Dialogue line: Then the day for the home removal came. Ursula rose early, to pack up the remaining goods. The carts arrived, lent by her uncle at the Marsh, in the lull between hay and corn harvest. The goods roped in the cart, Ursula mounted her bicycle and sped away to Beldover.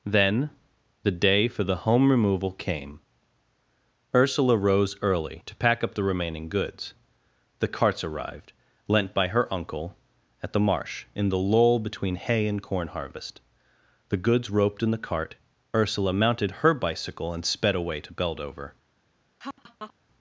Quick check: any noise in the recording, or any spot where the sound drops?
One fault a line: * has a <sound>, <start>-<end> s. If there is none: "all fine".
* has a laugh, 19.4-19.9 s